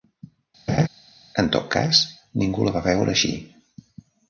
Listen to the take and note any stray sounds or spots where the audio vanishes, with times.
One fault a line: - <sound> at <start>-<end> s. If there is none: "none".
- laugh at 0.7-0.9 s